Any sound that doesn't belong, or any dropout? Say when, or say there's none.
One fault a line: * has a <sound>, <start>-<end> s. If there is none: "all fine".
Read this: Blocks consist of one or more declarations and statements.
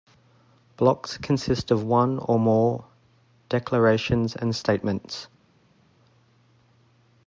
all fine